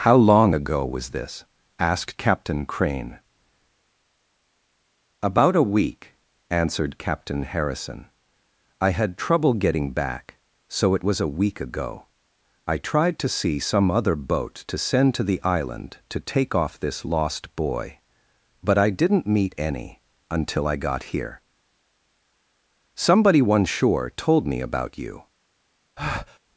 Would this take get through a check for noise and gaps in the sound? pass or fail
fail